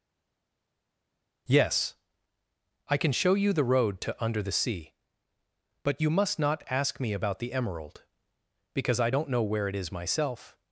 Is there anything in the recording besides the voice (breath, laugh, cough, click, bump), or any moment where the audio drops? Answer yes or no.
no